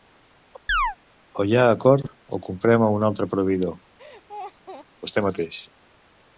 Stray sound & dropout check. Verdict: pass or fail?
fail